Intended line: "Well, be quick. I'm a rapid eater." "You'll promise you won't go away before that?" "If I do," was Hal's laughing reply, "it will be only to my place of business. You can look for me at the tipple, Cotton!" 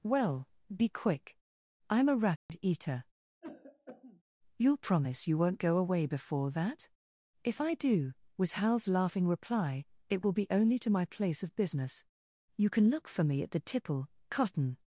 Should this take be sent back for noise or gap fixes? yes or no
yes